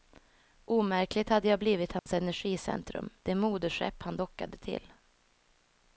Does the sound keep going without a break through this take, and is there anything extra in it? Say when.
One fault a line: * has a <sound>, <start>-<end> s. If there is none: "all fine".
* has a dropout, 2.0-2.1 s